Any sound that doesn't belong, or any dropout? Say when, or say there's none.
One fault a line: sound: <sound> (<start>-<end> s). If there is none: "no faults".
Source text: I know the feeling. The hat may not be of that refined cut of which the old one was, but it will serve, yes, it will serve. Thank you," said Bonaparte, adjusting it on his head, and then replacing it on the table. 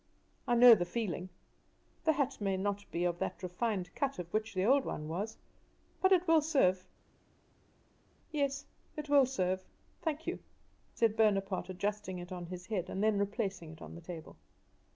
no faults